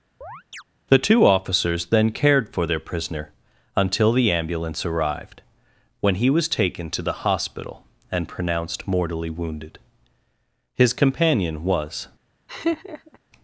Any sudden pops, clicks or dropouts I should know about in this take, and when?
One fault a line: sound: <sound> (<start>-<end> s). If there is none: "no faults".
sound: chirp (0.2-0.6 s)
sound: laugh (12.5-13.2 s)